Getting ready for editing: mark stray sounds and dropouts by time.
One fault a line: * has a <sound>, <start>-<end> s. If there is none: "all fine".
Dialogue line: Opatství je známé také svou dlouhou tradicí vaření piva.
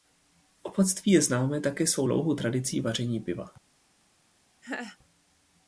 * has a laugh, 4.6-5.0 s